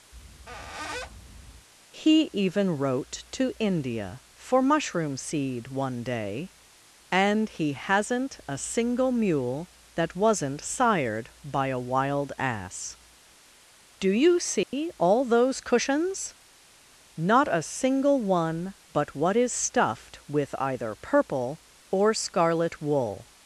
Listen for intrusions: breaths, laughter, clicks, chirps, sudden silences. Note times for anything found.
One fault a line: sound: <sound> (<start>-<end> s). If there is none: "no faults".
sound: squeak (0.1-1.7 s)
sound: dropout (14.6-14.7 s)